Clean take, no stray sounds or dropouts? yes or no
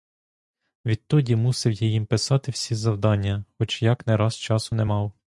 yes